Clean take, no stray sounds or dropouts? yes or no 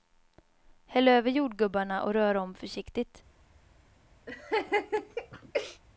no